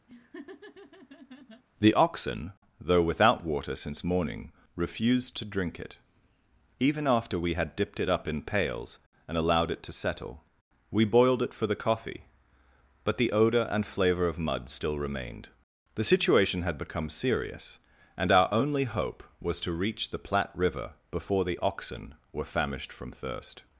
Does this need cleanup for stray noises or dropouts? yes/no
yes